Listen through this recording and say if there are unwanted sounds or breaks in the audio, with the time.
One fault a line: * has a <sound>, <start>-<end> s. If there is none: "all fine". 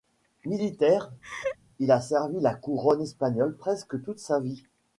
* has a laugh, 1.2-1.6 s